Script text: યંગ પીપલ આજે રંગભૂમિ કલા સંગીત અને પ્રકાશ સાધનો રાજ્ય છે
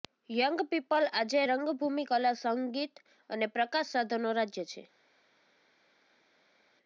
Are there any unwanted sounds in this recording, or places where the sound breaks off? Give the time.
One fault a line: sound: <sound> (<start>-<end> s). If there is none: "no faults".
no faults